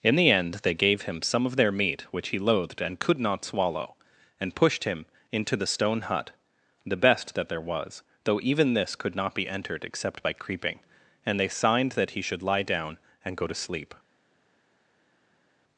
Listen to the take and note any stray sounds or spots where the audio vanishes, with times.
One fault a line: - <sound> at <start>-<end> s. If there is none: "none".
none